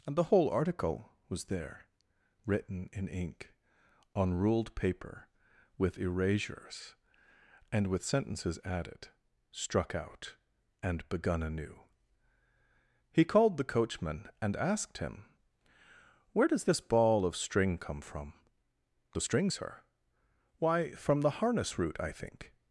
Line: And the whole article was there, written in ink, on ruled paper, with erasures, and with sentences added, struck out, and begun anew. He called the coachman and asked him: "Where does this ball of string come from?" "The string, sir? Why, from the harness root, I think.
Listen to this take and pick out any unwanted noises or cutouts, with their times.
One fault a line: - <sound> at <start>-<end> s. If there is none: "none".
none